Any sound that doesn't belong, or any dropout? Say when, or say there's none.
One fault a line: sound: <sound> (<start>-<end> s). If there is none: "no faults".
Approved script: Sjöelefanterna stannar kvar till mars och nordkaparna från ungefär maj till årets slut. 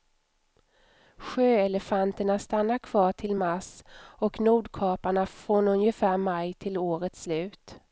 no faults